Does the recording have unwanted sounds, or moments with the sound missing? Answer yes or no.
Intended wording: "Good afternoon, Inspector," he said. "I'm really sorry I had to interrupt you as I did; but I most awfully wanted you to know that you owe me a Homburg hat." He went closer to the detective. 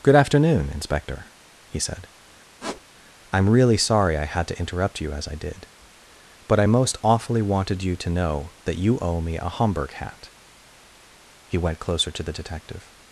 yes